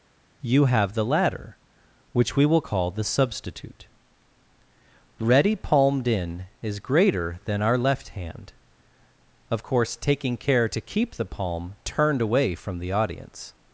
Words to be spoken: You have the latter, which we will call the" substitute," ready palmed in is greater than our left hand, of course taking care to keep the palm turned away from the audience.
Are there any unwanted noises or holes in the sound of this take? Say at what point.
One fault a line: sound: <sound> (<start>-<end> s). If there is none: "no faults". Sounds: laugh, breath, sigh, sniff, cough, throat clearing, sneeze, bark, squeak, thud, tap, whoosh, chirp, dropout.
no faults